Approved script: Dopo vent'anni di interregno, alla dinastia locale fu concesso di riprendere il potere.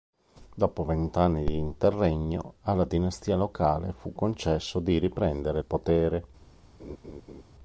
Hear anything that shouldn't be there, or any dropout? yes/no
yes